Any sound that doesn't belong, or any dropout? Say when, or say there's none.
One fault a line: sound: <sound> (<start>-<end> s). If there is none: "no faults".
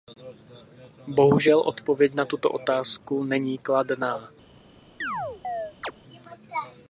sound: chirp (5.0-5.9 s)